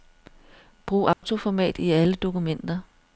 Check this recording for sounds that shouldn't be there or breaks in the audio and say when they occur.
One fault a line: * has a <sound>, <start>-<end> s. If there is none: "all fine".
* has a dropout, 1.1-1.2 s